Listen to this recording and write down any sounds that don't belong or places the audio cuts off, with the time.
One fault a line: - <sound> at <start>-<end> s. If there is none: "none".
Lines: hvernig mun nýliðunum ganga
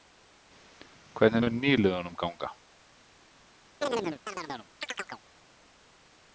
- chirp at 3.8-5.2 s